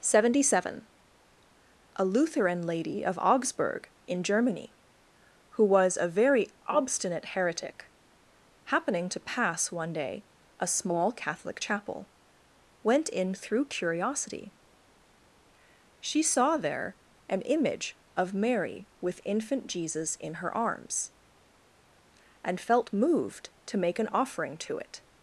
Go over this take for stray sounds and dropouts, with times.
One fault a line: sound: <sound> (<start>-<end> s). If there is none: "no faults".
no faults